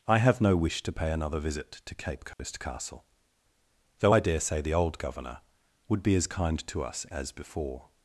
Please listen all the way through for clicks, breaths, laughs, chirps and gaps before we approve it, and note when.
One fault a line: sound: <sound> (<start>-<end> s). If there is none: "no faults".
sound: dropout (2.3-2.4 s)